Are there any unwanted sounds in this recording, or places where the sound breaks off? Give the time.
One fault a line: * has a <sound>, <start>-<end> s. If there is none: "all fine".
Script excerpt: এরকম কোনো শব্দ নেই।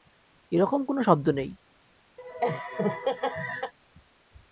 * has a laugh, 2.2-3.7 s